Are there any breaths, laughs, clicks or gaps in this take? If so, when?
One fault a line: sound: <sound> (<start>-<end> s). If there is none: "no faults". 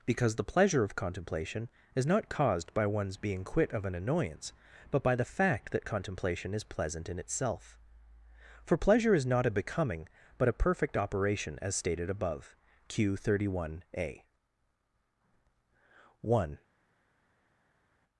no faults